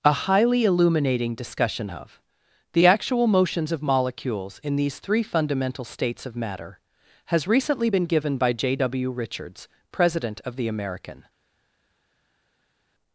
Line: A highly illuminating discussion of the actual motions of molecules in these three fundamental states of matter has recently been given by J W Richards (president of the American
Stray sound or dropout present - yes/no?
no